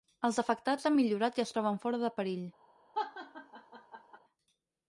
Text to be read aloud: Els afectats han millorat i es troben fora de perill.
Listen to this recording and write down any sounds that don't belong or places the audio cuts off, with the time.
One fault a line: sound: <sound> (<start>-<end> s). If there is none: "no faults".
sound: laugh (2.9-4.2 s)